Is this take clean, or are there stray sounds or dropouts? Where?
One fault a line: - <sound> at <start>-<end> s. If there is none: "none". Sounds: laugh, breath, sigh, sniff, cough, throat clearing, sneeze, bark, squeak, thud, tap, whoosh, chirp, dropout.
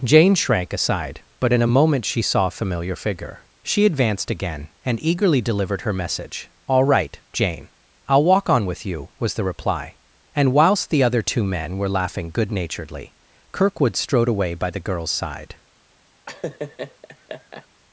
- laugh at 16.3-17.7 s